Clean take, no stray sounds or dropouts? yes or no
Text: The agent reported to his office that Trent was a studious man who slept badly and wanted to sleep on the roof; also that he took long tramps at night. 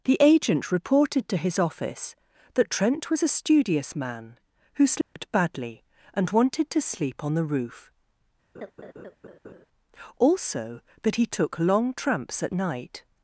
no